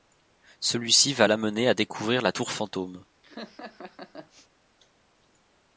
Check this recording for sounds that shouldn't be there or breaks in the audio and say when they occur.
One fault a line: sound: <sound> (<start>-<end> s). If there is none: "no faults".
sound: laugh (3.2-4.5 s)